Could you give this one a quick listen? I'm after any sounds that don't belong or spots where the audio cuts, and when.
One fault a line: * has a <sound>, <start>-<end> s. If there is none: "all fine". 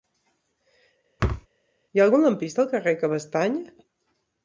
* has a thud, 1.2-1.5 s